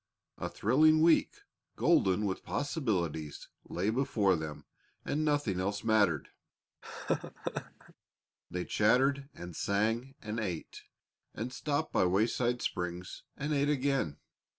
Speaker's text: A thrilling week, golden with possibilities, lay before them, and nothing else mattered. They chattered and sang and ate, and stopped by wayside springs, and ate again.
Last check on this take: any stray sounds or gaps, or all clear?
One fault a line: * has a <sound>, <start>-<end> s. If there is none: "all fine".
* has a laugh, 6.8-7.9 s